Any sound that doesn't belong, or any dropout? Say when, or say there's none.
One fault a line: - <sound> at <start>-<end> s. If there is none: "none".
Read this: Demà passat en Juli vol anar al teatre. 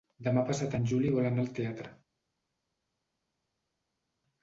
none